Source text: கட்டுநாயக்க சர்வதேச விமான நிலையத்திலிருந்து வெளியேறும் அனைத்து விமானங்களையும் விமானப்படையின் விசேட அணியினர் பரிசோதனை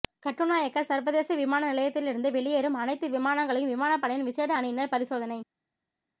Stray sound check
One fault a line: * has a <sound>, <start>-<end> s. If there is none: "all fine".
all fine